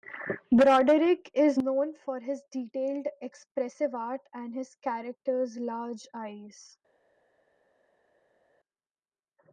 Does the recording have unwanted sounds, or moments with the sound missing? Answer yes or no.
no